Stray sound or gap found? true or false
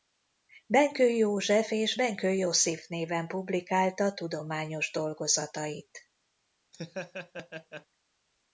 true